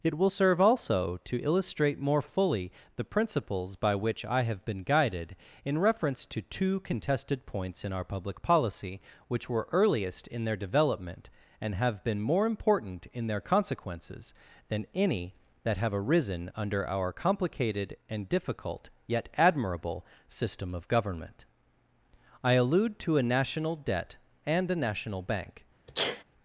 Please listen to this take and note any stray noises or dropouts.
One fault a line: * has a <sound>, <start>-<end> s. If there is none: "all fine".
* has a sneeze, 25.9-26.2 s